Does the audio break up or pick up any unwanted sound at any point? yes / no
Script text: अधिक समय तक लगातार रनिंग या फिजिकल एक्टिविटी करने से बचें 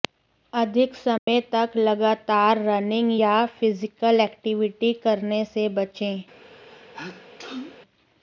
yes